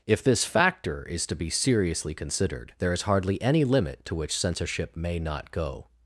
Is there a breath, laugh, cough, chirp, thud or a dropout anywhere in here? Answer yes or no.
no